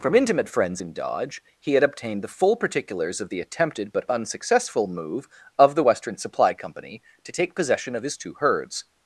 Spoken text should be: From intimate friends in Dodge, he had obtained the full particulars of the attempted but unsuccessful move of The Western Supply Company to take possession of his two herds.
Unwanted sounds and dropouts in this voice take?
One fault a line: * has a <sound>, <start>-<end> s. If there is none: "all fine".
all fine